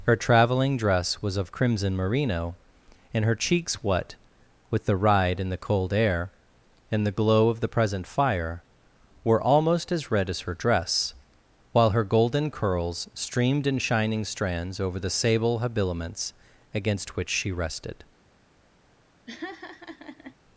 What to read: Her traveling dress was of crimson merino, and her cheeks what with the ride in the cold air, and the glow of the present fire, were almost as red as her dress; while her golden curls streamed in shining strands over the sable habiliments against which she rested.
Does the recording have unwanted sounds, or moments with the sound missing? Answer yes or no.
yes